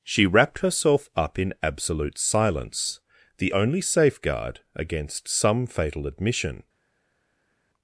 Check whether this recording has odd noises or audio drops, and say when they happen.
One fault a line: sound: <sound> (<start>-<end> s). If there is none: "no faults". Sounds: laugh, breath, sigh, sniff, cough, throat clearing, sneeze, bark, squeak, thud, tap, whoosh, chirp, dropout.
no faults